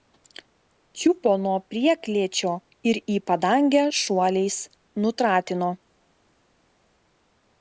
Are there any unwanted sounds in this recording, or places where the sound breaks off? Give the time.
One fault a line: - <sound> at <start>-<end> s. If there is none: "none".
none